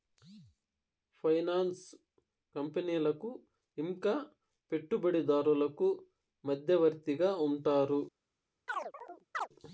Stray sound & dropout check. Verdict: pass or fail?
fail